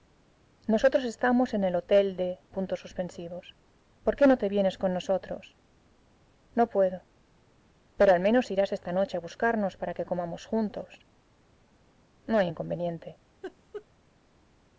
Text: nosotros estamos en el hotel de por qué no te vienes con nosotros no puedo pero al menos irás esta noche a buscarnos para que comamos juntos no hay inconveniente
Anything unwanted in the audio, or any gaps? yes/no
yes